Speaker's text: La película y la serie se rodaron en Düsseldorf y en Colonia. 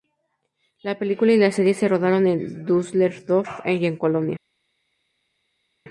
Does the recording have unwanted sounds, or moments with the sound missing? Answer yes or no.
no